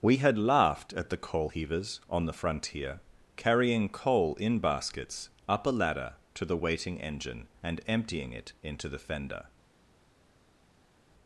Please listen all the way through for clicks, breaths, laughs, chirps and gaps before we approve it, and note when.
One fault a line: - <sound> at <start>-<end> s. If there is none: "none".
none